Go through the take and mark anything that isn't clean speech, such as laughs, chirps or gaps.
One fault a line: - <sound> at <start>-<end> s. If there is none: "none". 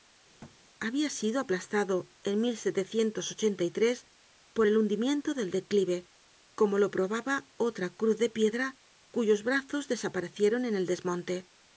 - thud at 0.4-0.6 s